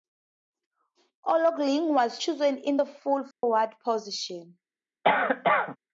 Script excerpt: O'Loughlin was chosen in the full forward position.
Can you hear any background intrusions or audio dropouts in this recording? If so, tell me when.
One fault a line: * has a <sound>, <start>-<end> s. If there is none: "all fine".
* has a dropout, 3.3-3.4 s
* has a cough, 5.0-5.8 s